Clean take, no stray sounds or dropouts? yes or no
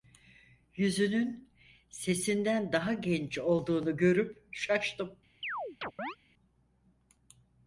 no